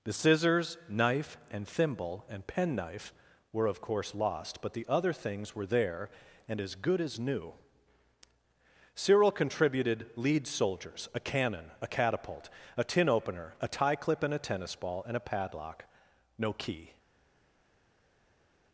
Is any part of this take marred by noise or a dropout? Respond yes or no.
no